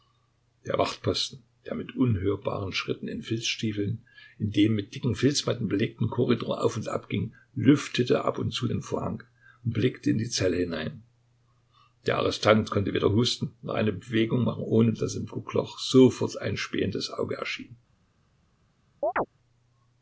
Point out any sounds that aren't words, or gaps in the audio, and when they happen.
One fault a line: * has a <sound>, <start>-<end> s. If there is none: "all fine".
* has a chirp, 19.0-19.3 s